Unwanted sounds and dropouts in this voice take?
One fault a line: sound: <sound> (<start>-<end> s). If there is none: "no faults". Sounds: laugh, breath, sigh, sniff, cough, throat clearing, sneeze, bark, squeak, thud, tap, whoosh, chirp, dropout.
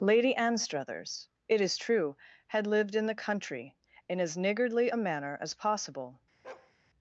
sound: bark (6.4-6.7 s)